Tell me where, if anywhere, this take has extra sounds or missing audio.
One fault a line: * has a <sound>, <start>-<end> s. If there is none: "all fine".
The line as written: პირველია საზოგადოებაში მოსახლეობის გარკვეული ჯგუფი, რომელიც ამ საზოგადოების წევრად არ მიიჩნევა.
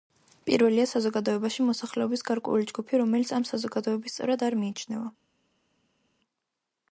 all fine